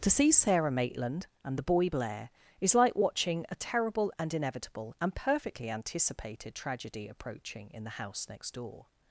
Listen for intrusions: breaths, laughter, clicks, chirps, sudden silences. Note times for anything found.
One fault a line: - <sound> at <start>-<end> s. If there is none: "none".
none